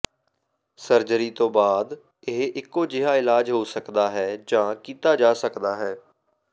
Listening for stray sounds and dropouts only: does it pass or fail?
pass